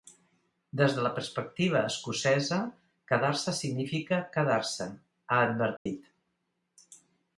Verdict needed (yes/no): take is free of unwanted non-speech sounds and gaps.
no